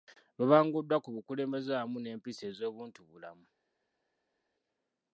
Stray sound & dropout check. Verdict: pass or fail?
pass